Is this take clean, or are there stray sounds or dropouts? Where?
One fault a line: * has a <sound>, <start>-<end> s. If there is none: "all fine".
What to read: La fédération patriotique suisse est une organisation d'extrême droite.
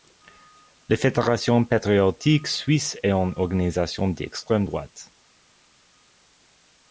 all fine